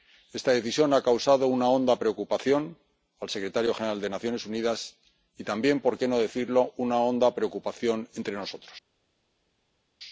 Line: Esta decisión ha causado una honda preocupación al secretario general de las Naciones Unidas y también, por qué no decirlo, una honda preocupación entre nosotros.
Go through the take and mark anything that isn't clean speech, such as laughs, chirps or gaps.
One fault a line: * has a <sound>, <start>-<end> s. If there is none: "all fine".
all fine